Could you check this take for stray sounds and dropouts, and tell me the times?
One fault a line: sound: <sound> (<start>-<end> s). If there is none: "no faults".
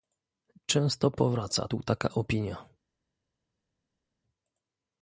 no faults